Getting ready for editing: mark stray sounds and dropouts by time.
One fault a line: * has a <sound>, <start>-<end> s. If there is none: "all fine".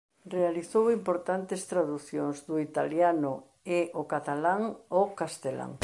all fine